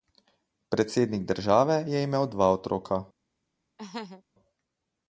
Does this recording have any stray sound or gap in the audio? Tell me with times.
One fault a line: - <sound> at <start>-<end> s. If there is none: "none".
- laugh at 3.8-4.2 s